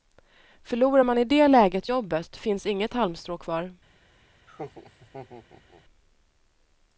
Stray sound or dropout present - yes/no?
yes